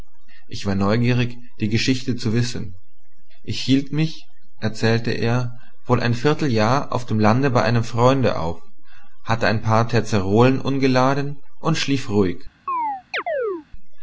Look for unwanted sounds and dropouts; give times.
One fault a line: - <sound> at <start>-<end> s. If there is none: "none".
- chirp at 12.7-13.7 s